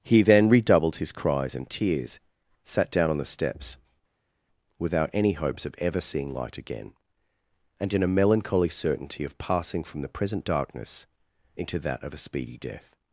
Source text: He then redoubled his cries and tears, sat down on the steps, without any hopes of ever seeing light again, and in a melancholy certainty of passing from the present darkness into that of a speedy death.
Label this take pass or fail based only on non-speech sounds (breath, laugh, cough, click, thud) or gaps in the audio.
pass